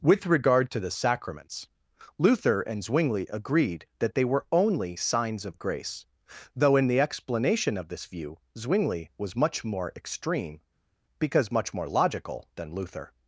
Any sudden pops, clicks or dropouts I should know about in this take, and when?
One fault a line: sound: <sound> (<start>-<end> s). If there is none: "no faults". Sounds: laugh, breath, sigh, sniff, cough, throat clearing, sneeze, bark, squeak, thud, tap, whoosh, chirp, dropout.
no faults